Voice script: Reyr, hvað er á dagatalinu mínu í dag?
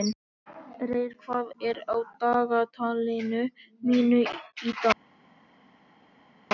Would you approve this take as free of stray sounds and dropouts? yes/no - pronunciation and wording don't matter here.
yes